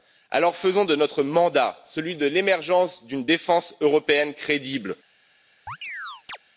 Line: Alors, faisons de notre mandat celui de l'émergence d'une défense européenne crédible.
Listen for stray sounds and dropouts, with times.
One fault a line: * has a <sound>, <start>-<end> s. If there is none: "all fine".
* has a chirp, 5.7-6.4 s